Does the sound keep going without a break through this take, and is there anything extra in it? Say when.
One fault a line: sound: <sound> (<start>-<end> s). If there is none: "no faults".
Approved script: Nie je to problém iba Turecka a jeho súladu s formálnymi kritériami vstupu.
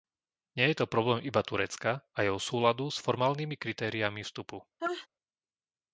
sound: sneeze (4.8-5.1 s)